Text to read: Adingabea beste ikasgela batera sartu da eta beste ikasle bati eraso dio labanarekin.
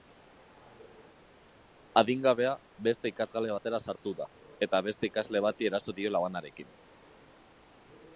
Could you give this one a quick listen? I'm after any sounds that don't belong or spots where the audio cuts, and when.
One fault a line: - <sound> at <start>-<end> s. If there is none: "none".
none